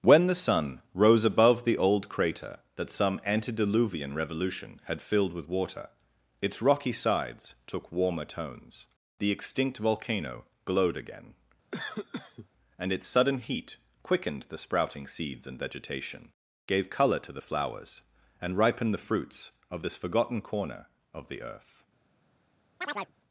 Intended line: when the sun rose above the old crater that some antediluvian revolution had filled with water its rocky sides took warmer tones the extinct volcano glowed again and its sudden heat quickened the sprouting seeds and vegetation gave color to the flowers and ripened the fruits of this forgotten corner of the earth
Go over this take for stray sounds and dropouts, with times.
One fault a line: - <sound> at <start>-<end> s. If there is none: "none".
- cough at 11.7-12.5 s
- chirp at 22.8-23.1 s